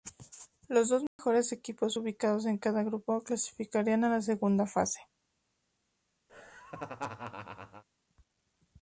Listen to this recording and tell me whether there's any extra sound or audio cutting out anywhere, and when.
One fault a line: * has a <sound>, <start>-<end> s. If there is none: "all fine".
* has a dropout, 1.1-1.2 s
* has a laugh, 6.3-7.8 s